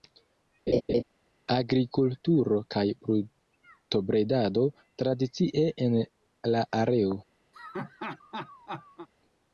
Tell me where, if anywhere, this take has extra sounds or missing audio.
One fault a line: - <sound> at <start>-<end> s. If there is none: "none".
- laugh at 0.7-1.0 s
- laugh at 7.5-9.1 s